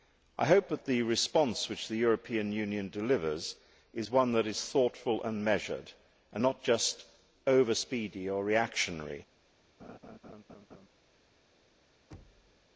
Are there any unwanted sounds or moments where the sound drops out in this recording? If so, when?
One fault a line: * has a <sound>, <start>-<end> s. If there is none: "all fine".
* has a laugh, 9.8-10.9 s
* has a thud, 12.1-12.7 s